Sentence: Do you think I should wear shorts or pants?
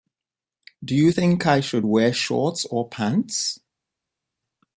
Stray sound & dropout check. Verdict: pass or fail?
pass